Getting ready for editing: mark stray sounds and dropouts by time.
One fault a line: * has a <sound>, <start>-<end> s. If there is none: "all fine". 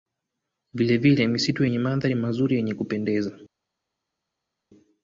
all fine